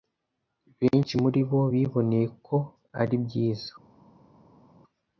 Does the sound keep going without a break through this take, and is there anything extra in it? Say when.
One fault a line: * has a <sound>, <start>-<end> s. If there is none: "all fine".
all fine